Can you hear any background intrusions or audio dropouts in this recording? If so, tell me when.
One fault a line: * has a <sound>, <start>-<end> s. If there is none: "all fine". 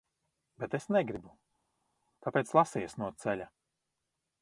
all fine